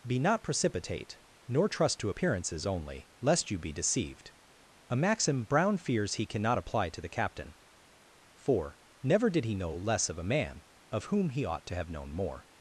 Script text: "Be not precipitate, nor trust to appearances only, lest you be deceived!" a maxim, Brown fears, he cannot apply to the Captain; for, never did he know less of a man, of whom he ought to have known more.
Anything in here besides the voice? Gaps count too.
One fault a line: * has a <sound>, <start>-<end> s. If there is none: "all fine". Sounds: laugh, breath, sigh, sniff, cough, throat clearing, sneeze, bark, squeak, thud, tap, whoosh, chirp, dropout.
all fine